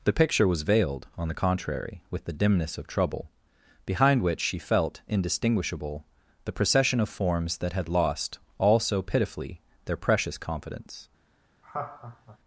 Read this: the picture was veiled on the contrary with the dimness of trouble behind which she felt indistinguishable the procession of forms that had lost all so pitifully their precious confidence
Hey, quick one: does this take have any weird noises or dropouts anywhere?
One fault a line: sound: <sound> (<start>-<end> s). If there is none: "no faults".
sound: laugh (11.6-12.4 s)